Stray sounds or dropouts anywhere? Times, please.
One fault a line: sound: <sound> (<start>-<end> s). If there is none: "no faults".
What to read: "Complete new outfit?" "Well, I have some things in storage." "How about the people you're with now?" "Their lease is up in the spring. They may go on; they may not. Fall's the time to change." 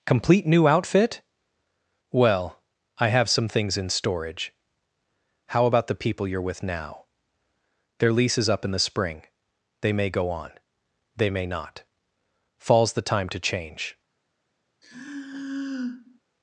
sound: sigh (14.8-16.2 s)